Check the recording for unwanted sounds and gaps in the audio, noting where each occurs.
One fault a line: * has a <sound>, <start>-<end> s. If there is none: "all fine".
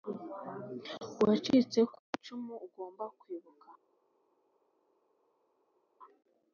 all fine